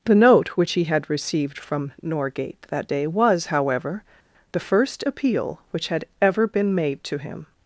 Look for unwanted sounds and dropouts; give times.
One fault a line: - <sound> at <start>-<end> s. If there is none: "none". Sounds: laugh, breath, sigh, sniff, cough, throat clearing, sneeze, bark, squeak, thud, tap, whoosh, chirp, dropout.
none